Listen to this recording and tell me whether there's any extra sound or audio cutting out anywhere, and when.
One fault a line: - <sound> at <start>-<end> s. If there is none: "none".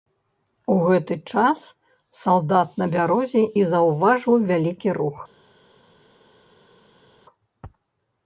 none